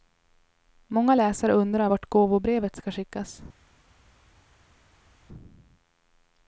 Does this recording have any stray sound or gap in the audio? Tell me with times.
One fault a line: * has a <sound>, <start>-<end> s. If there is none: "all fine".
all fine